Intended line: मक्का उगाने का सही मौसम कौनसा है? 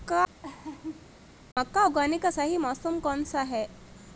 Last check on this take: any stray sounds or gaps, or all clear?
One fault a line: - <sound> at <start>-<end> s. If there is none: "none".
- laugh at 0.4-1.1 s